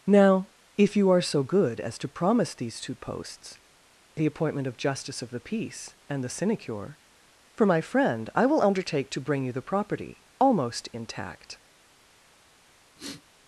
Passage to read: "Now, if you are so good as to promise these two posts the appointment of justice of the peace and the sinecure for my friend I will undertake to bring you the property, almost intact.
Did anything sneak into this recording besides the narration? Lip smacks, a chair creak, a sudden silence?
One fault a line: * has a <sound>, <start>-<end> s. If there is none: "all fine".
* has a sniff, 13.0-13.2 s